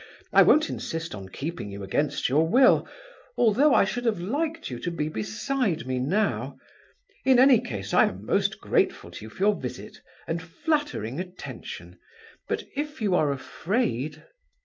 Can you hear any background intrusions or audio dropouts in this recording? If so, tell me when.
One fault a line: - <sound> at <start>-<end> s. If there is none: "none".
none